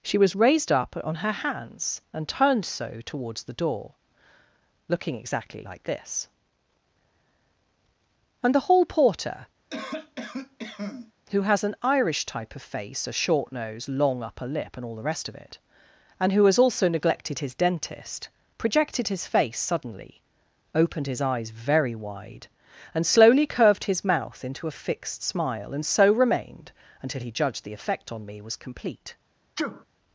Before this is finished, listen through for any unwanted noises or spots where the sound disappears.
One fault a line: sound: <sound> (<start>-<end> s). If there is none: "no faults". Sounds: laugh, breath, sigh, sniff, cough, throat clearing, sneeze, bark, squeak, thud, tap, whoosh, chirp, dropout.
sound: cough (9.7-11.1 s)
sound: sneeze (29.6-29.9 s)